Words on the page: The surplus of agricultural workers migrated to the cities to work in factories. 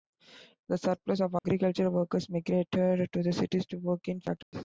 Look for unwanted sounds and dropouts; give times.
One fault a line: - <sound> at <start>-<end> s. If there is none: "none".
- dropout at 1.4-1.4 s
- dropout at 4.4-4.5 s